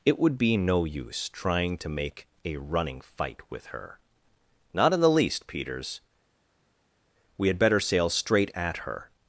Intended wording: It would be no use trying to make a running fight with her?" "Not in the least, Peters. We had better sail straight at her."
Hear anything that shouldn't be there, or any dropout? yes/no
no